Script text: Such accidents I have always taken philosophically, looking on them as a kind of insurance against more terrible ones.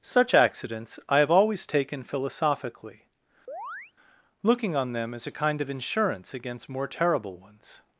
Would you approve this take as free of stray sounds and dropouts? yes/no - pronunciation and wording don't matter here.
no